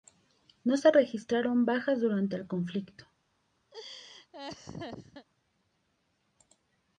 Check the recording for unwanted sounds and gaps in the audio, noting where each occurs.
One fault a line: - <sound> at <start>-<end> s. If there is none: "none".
- laugh at 3.7-5.3 s